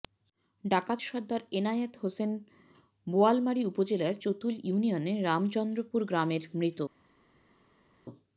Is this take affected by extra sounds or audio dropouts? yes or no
no